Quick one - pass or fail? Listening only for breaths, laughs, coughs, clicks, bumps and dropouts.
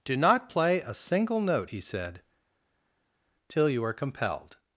pass